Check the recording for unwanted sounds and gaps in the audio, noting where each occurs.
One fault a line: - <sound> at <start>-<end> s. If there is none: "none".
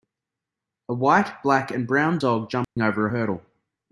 - dropout at 2.6-2.8 s